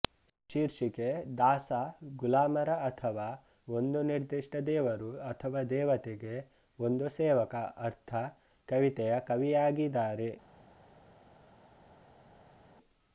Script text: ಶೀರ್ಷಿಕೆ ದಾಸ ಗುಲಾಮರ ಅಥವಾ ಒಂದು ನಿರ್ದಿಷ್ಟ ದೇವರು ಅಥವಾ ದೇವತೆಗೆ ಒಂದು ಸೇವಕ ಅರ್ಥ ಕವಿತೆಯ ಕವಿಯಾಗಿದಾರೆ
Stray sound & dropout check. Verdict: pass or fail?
pass